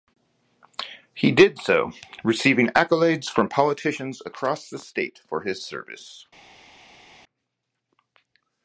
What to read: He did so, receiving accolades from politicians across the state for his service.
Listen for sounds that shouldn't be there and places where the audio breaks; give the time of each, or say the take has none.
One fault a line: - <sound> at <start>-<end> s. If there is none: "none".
none